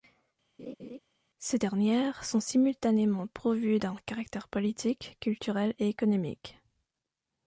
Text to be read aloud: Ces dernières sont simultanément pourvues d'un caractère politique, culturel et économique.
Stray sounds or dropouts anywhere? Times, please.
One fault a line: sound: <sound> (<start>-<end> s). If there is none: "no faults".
sound: laugh (0.6-1.0 s)